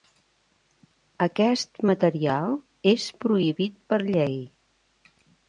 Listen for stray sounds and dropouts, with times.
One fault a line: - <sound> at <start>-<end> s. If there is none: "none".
none